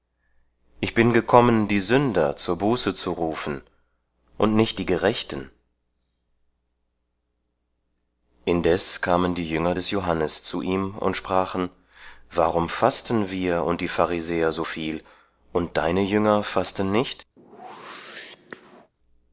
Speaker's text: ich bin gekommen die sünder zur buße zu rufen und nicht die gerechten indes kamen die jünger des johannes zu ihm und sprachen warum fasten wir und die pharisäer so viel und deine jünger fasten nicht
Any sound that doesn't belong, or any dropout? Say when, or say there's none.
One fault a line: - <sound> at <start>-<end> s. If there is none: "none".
- whoosh at 17.4-18.9 s